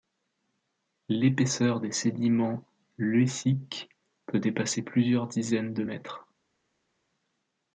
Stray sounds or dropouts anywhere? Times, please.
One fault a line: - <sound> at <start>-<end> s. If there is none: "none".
none